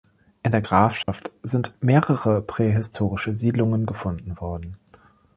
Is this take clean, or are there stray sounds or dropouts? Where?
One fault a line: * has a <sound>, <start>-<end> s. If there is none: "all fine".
* has a dropout, 1.0-1.1 s